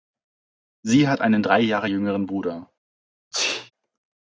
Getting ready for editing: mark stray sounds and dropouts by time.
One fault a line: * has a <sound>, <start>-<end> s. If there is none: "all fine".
* has a sneeze, 3.3-3.7 s